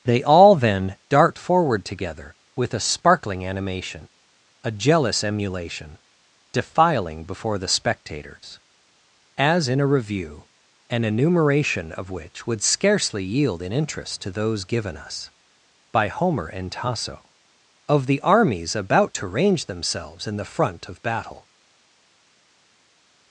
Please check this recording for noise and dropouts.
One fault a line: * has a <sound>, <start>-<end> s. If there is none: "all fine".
all fine